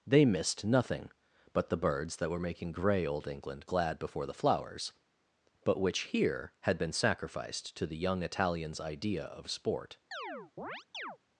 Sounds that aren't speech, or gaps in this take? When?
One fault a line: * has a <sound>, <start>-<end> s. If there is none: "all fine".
* has a chirp, 10.1-11.2 s